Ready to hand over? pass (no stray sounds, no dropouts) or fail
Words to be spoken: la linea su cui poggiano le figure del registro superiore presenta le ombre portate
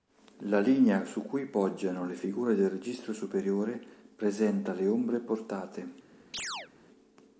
fail